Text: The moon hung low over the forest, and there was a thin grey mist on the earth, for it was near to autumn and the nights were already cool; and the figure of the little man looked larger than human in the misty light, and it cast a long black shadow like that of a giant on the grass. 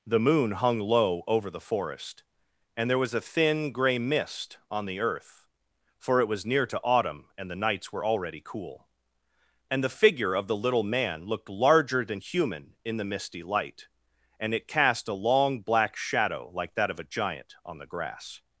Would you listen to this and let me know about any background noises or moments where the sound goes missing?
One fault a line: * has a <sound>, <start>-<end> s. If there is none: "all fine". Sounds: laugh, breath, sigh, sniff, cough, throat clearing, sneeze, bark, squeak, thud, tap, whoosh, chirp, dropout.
all fine